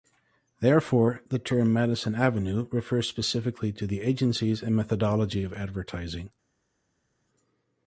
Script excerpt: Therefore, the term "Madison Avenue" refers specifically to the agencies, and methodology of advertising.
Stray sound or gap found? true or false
false